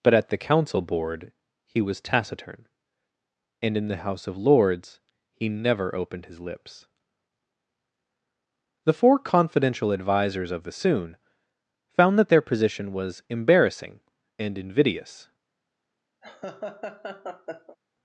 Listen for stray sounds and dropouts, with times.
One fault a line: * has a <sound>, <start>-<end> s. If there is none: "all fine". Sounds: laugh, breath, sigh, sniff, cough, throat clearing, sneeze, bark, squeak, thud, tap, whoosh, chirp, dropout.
* has a laugh, 16.2-17.8 s